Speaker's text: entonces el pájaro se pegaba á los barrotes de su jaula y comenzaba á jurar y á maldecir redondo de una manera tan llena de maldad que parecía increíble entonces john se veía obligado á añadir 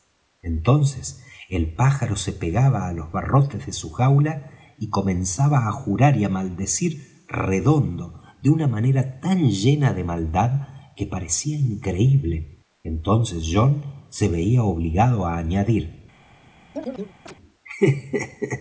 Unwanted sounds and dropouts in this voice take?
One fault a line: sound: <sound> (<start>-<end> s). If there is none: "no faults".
sound: chirp (16.7-17.4 s)